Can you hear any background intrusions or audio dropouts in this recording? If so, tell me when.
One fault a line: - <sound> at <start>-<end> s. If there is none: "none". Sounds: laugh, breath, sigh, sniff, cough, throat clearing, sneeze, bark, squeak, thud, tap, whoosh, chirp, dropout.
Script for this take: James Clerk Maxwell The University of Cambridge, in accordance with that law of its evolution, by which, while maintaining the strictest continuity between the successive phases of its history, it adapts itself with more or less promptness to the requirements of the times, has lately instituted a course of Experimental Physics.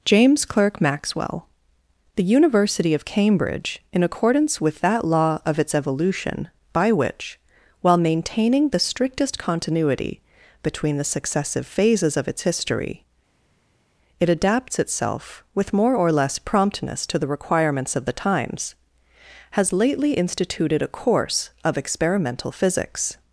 none